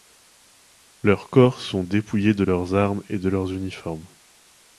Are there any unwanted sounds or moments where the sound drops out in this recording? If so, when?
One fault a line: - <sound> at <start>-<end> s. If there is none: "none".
none